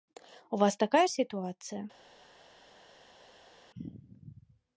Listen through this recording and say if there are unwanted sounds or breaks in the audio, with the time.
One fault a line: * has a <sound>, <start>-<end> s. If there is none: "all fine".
all fine